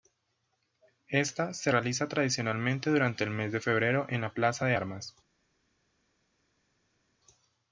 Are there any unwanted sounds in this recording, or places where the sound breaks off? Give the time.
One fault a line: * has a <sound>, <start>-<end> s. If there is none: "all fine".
all fine